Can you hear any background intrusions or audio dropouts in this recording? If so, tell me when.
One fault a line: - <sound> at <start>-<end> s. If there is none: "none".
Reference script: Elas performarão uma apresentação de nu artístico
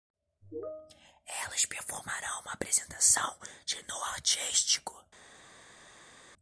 none